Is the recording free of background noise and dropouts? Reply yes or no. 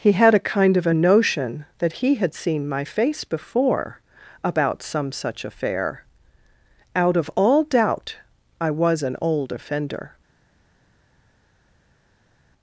yes